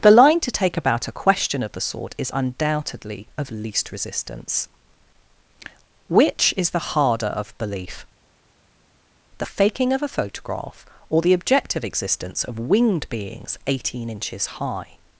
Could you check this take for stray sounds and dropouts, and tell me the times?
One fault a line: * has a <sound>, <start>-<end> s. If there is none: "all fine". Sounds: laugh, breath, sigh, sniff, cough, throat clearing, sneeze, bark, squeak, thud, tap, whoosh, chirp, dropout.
all fine